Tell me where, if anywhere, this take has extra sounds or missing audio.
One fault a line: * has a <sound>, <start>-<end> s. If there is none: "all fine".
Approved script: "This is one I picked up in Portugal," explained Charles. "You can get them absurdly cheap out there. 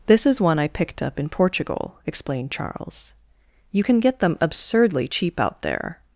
all fine